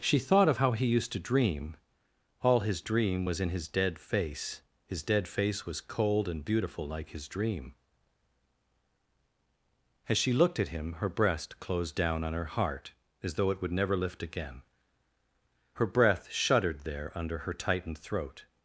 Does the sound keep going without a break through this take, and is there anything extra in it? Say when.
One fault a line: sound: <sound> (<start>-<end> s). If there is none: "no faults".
no faults